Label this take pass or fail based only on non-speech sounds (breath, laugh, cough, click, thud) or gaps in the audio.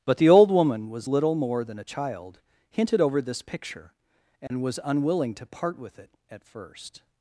fail